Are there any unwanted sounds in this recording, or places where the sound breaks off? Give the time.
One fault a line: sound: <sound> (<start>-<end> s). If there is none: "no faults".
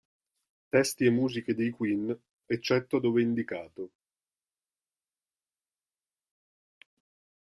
no faults